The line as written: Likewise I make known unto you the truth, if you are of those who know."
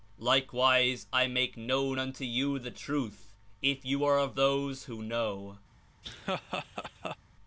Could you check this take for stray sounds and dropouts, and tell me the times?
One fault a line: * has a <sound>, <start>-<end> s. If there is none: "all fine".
* has a laugh, 6.0-7.2 s